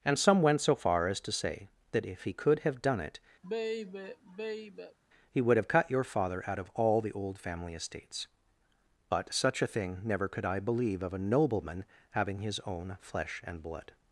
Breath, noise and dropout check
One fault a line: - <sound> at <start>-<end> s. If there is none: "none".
- sigh at 3.4-5.0 s